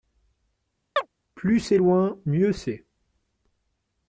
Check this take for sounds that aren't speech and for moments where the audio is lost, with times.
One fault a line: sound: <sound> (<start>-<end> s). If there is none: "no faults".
sound: chirp (1.0-1.1 s)